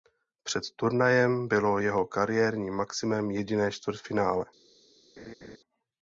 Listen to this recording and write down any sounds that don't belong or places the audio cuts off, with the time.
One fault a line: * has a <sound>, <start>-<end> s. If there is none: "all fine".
* has a laugh, 5.2-5.6 s